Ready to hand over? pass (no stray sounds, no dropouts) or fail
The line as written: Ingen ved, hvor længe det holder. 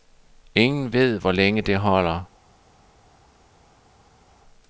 pass